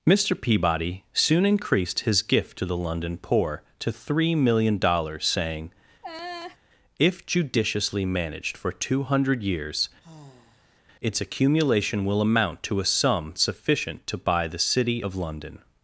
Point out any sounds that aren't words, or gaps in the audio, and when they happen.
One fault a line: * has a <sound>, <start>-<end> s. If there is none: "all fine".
* has a laugh, 6.0-6.6 s
* has a sigh, 10.0-10.8 s